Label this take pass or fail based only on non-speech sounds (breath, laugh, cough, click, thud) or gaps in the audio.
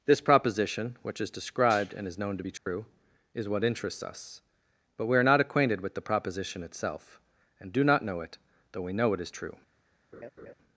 fail